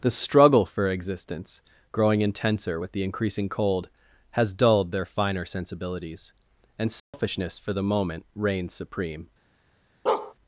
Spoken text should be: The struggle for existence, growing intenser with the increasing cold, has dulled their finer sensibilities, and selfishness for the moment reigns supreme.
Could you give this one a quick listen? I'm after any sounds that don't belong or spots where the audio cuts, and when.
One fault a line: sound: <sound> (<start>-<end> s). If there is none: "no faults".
sound: dropout (7.0-7.1 s)
sound: bark (10.1-10.3 s)